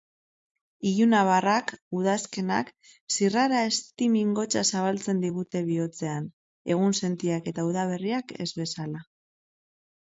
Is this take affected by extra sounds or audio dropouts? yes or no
no